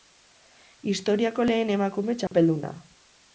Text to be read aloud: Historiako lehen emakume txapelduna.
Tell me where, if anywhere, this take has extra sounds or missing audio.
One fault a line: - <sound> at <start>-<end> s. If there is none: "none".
- dropout at 2.3-2.3 s